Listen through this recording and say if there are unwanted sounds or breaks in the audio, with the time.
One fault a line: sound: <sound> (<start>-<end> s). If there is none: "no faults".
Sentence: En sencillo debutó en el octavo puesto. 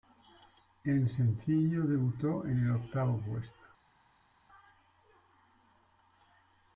no faults